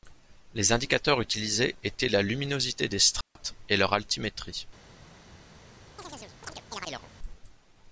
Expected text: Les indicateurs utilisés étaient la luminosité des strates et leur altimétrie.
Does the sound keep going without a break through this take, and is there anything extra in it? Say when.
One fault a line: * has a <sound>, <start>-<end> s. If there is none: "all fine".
* has a dropout, 3.2-3.4 s
* has a chirp, 6.0-7.1 s